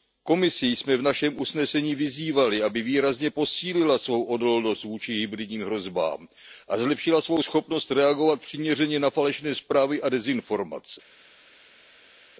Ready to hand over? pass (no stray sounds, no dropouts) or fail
pass